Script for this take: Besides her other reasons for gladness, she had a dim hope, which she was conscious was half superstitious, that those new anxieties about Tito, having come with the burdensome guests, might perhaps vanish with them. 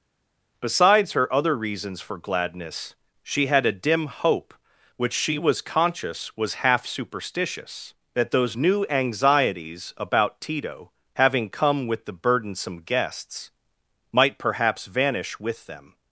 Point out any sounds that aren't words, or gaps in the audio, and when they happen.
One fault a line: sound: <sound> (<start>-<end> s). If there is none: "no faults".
no faults